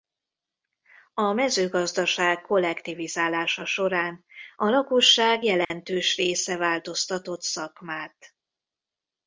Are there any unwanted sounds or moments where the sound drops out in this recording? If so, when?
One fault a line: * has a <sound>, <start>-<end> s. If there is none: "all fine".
* has a dropout, 5.6-5.7 s